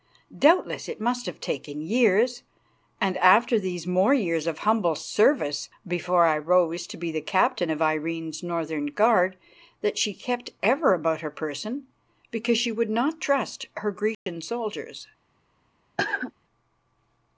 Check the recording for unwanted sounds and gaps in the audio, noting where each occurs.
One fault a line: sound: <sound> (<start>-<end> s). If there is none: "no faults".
sound: dropout (14.1-14.3 s)
sound: cough (16.0-16.3 s)